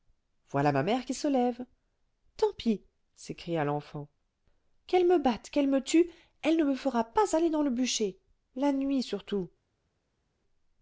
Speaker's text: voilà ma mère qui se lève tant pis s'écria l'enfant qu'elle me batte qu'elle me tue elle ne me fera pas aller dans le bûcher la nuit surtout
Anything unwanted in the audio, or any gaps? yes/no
no